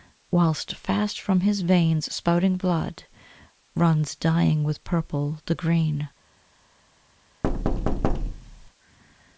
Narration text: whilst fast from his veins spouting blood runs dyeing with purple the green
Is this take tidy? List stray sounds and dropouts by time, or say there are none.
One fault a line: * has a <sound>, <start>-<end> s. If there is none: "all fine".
* has a thud, 7.4-8.7 s